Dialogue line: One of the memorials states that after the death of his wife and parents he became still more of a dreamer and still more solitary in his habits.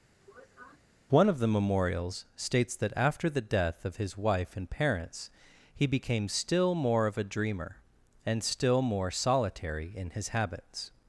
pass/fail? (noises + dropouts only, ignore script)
fail